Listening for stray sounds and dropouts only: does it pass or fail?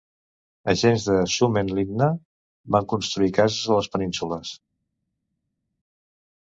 pass